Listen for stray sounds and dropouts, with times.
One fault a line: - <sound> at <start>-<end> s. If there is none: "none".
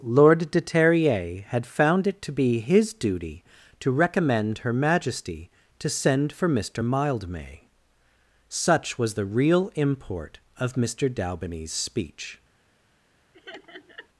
- laugh at 13.3-14.1 s